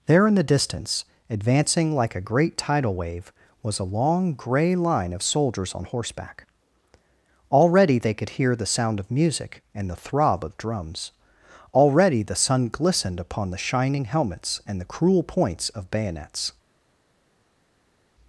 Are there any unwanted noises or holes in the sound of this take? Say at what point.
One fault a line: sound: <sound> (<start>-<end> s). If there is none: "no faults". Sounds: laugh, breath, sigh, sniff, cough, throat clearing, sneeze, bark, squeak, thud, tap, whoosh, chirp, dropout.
no faults